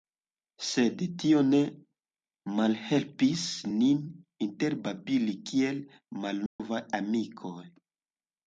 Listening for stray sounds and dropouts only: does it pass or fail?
fail